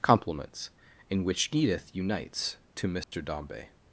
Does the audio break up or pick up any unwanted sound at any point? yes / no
yes